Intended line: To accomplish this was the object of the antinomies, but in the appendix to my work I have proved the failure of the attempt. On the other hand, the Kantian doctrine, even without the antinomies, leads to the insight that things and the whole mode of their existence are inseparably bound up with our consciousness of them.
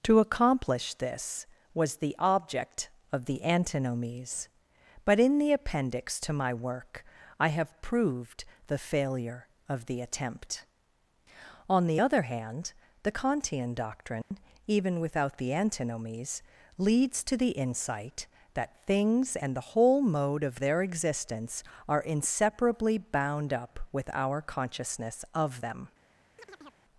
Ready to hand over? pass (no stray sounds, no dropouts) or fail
fail